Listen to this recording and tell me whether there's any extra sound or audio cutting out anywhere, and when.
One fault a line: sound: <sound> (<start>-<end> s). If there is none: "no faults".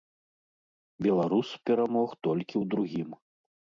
no faults